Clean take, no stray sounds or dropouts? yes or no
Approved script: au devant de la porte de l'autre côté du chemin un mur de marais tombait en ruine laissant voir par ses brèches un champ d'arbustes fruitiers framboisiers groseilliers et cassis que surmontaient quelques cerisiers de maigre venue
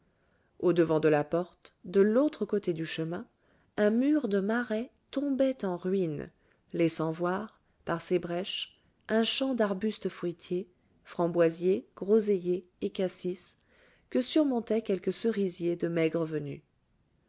yes